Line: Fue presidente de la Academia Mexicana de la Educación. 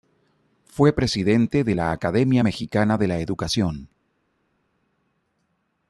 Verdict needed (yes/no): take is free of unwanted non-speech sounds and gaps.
yes